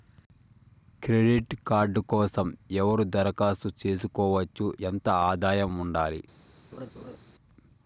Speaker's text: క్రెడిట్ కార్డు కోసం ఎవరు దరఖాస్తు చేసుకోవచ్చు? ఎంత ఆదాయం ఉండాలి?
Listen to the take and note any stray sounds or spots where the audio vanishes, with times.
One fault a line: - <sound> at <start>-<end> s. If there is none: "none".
- laugh at 6.7-7.2 s